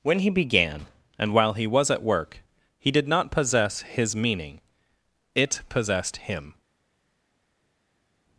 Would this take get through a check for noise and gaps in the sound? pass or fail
pass